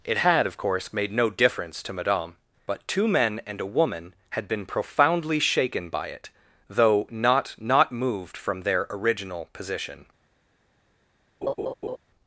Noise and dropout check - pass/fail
fail